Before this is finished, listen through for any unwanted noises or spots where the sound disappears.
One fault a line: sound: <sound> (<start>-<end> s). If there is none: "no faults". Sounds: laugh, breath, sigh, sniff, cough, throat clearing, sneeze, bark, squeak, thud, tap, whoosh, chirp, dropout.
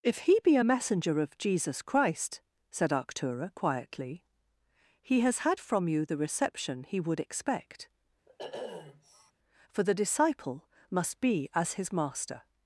sound: sniff (8.3-9.3 s)